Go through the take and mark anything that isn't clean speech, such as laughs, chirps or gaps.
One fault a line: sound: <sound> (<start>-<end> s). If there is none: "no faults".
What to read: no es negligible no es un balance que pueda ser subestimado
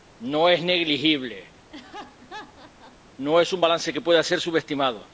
sound: laugh (1.7-3.0 s)